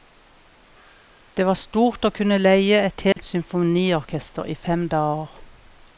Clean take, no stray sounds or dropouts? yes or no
no